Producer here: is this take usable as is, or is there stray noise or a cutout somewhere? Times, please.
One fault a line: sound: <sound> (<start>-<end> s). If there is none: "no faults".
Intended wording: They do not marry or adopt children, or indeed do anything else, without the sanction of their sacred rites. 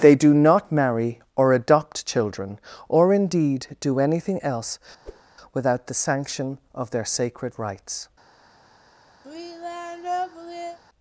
sound: whoosh (5.0-5.2 s)
sound: sigh (9.2-10.8 s)